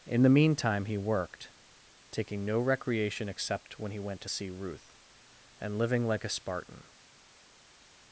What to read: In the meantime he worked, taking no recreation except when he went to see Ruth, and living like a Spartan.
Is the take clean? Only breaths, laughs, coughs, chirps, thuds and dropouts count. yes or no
yes